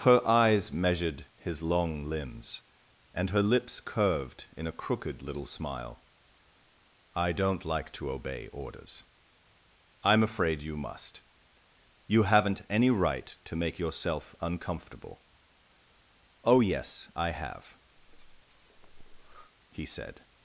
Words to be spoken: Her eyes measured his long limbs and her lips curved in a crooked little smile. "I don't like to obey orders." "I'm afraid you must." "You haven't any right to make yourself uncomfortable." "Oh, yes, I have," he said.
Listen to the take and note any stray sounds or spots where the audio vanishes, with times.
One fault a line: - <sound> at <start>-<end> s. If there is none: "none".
- breath at 18.0-19.5 s